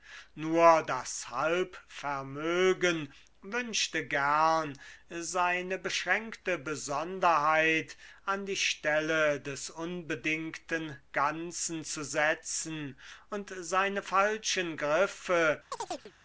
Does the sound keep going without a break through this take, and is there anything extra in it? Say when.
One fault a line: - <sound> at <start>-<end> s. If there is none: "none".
- chirp at 15.7-16.1 s